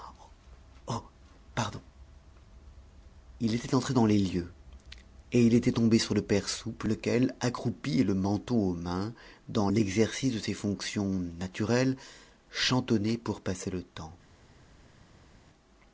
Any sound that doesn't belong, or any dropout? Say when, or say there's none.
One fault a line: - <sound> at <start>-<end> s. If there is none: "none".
none